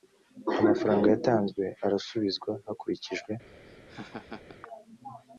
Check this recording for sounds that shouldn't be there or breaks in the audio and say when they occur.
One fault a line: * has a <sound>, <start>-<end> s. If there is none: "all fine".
* has a laugh, 3.5-4.6 s